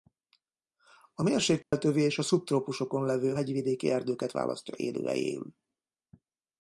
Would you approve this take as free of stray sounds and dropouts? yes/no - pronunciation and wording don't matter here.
no